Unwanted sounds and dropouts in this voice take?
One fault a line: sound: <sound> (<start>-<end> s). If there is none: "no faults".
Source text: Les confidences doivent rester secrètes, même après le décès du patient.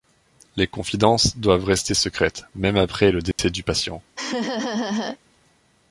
sound: dropout (3.3-3.4 s)
sound: laugh (4.2-5.2 s)